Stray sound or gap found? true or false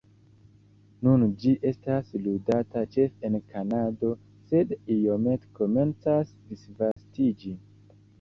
true